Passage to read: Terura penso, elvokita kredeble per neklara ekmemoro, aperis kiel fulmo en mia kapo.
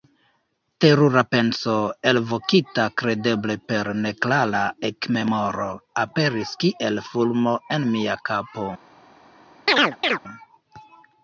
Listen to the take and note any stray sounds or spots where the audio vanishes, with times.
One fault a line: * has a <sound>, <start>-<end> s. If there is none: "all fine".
* has a chirp, 9.7-10.2 s